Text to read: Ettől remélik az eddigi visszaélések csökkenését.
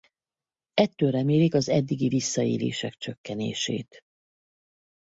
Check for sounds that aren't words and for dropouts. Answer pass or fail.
pass